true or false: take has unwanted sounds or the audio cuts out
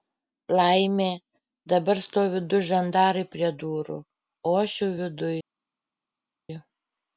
false